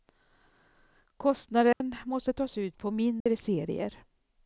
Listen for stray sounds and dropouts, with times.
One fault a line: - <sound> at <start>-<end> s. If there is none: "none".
- dropout at 1.7-1.8 s
- dropout at 3.2-3.3 s